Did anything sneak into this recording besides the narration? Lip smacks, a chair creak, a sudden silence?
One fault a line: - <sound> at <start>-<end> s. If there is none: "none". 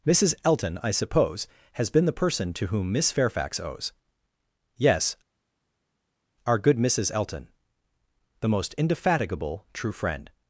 none